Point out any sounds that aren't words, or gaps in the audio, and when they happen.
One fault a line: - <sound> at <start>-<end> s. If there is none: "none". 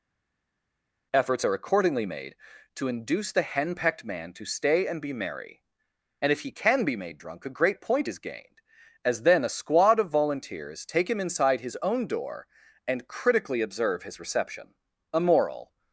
none